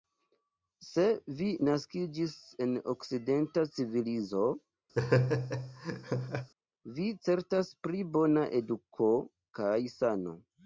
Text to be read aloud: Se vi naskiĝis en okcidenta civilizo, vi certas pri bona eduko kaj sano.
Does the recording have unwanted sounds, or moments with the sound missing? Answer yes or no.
yes